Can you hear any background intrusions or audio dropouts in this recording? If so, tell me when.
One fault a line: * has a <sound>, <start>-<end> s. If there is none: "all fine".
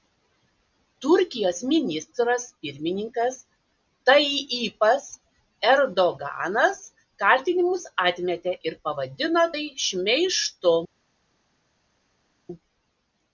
all fine